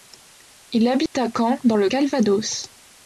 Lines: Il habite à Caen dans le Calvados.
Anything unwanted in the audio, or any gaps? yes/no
yes